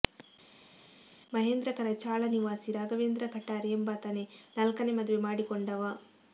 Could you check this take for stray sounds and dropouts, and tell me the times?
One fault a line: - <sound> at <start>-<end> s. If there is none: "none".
none